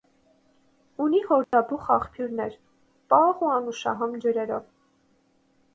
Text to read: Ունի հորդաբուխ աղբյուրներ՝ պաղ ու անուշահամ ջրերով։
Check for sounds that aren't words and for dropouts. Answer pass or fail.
fail